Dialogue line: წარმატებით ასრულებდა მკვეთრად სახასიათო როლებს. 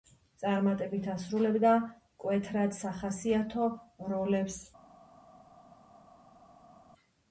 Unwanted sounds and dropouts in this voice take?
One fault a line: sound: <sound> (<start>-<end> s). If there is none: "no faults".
no faults